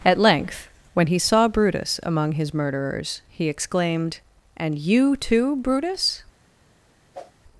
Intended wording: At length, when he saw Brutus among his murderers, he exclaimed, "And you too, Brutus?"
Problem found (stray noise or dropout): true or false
true